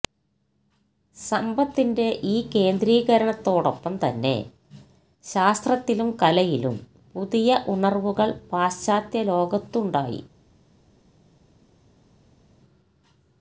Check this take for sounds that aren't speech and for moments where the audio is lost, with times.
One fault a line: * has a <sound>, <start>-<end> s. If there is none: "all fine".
all fine